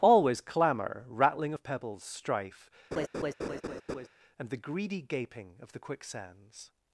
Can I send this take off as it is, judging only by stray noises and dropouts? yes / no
no